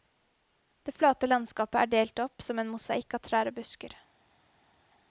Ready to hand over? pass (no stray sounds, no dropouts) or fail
pass